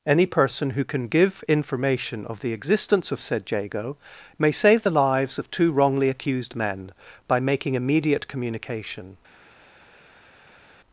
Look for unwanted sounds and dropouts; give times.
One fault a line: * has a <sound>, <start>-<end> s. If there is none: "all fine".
all fine